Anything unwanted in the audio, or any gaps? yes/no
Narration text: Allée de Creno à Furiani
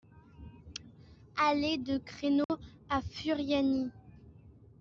yes